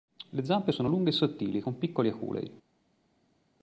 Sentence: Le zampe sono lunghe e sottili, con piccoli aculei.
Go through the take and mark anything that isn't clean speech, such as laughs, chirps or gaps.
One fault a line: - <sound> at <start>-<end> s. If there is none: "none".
none